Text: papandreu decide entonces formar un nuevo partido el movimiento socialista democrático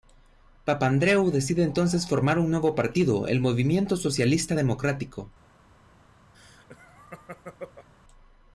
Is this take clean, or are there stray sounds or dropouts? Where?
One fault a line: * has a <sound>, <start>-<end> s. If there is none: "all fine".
* has a laugh, 6.3-7.9 s